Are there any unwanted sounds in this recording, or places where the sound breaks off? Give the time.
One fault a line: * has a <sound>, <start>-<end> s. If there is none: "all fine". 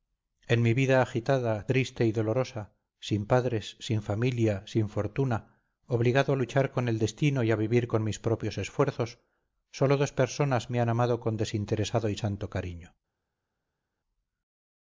all fine